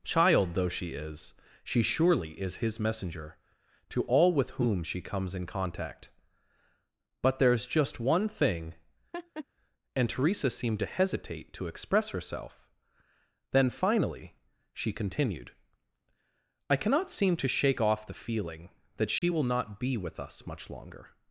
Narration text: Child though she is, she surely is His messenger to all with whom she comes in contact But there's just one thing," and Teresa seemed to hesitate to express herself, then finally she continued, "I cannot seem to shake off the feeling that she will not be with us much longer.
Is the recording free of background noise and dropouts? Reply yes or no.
no